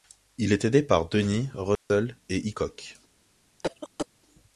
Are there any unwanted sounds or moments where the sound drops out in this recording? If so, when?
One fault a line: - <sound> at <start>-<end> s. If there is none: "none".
- dropout at 1.8-1.9 s
- cough at 3.6-4.1 s